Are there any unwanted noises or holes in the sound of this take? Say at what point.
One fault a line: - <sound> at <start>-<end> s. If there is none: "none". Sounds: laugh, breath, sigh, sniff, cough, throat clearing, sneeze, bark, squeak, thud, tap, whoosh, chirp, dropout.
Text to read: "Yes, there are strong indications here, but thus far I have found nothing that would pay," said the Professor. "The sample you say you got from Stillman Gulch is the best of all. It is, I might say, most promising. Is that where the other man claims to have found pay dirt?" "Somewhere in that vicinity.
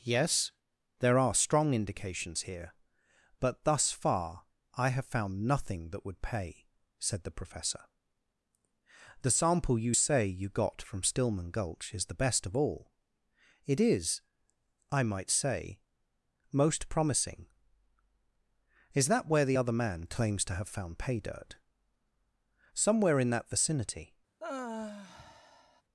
- sigh at 24.4-25.8 s